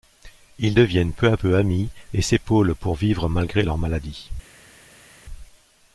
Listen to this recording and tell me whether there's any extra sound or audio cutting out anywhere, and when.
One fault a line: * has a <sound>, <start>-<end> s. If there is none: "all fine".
all fine